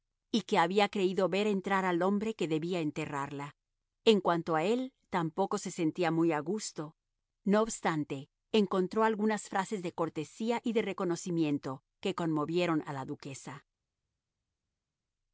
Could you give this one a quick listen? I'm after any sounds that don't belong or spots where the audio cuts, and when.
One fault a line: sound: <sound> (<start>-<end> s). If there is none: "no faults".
no faults